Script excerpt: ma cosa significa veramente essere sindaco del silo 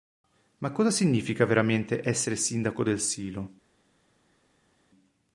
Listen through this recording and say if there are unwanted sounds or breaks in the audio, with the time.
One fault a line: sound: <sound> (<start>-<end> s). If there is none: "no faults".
no faults